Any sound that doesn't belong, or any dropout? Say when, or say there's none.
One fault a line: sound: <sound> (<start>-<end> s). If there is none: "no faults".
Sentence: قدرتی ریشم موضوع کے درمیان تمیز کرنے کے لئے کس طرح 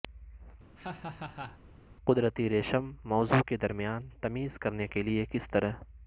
sound: laugh (0.8-1.6 s)